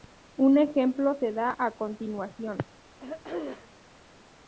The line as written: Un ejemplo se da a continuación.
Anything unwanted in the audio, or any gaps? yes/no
yes